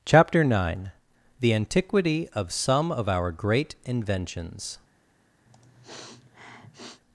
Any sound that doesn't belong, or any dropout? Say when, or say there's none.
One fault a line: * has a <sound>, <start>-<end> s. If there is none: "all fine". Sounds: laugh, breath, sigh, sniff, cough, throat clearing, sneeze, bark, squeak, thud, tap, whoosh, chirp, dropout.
* has a sniff, 5.5-7.0 s